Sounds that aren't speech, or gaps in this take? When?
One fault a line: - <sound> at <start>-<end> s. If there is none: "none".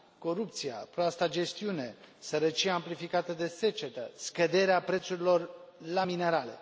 none